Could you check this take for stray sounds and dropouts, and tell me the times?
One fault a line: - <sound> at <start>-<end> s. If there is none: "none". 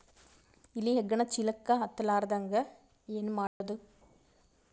- dropout at 3.5-3.6 s